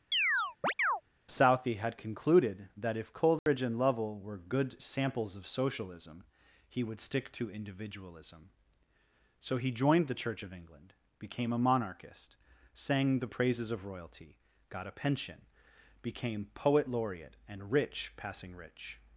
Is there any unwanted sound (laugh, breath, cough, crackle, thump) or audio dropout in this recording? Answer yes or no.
yes